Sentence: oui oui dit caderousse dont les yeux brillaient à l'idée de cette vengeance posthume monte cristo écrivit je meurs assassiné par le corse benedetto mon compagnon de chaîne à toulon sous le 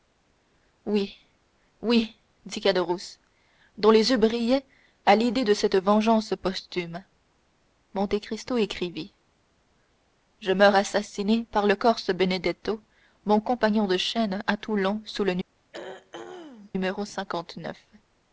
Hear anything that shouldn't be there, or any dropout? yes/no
yes